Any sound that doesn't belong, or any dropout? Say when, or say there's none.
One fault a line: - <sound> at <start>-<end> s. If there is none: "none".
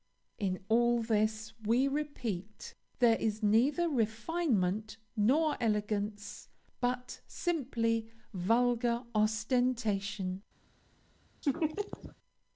- laugh at 11.4-12.2 s